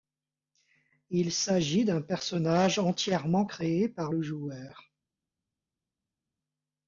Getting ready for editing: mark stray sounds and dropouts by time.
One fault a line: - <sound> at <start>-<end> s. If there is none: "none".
none